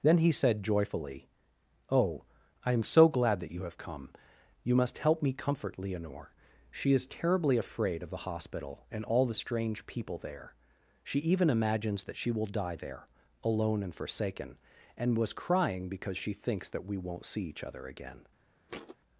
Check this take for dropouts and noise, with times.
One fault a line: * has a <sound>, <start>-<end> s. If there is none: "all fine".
* has a thud, 18.7-19.0 s